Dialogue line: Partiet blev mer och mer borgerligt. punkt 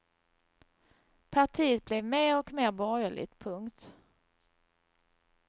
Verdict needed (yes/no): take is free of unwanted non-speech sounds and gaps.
yes